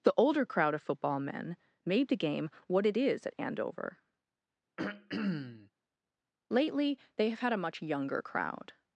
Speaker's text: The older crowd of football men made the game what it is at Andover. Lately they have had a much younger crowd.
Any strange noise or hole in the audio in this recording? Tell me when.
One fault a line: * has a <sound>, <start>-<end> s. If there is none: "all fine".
* has a throat clearing, 4.8-5.7 s